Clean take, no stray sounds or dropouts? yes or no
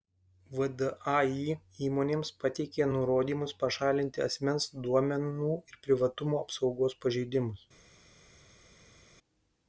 yes